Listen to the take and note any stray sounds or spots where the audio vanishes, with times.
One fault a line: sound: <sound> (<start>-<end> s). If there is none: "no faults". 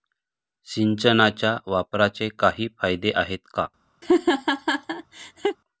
sound: laugh (4.0-5.6 s)